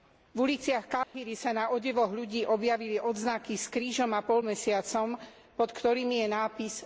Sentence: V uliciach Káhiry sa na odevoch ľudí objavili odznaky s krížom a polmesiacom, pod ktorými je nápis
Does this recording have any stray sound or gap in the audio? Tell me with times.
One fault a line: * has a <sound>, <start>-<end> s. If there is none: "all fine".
* has a dropout, 1.0-1.1 s